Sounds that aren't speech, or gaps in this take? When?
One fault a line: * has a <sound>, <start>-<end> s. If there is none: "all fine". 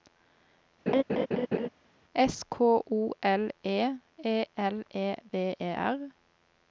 * has a laugh, 0.9-1.7 s